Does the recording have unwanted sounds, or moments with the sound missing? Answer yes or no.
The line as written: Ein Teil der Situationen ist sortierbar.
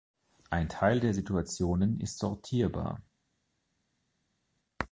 no